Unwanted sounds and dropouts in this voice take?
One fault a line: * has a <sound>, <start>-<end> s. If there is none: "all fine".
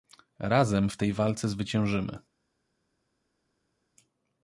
all fine